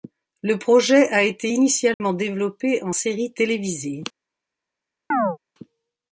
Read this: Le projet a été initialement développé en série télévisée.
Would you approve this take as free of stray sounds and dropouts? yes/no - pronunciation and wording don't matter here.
no